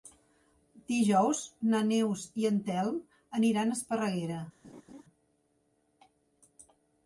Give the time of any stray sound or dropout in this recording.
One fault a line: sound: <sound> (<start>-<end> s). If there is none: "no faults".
sound: laugh (4.6-5.0 s)